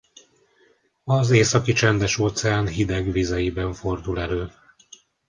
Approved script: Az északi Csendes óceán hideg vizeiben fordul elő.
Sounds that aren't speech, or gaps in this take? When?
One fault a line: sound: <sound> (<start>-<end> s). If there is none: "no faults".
no faults